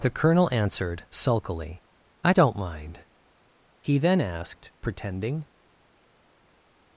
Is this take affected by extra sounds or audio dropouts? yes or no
no